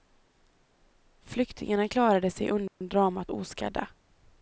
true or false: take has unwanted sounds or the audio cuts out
true